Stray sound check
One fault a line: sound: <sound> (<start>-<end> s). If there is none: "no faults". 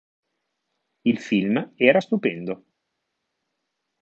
no faults